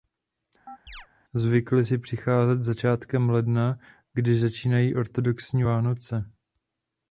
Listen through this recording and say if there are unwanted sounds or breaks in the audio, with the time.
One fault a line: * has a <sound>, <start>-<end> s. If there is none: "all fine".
* has a chirp, 0.7-1.1 s